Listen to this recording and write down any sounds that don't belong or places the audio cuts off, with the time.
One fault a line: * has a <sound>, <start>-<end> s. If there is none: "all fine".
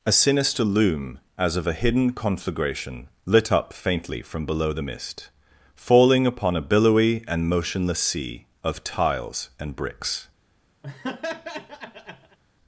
* has a laugh, 10.8-12.4 s